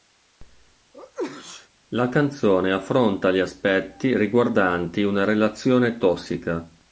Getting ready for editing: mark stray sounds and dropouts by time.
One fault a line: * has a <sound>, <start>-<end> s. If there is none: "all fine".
* has a sneeze, 0.9-1.7 s